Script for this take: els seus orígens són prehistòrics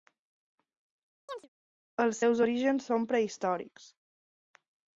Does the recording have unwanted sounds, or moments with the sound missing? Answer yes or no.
yes